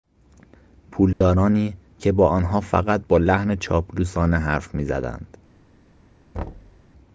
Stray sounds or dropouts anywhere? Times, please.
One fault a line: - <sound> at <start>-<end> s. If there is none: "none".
- dropout at 1.1-1.2 s
- thud at 6.3-6.8 s